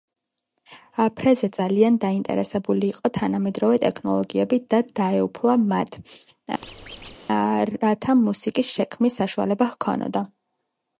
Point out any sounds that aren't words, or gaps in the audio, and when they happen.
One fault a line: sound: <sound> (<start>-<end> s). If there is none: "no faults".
sound: squeak (6.6-7.2 s)